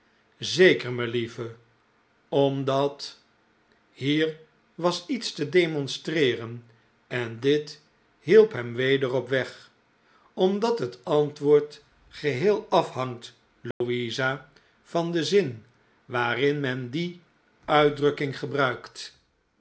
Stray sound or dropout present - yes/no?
yes